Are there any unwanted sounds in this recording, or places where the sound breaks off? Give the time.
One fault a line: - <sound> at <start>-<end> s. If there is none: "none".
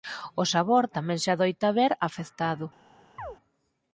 - chirp at 3.2-3.4 s